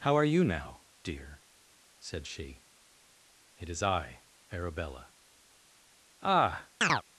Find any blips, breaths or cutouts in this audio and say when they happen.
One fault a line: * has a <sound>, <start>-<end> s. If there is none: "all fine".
* has a chirp, 6.8-7.0 s